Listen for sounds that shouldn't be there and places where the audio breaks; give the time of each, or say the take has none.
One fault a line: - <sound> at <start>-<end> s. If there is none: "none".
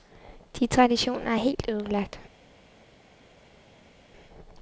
none